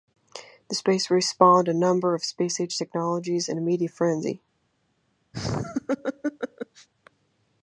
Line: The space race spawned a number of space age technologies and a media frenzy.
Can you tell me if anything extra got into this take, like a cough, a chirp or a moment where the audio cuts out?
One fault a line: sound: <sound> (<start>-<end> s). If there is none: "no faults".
sound: laugh (5.3-6.9 s)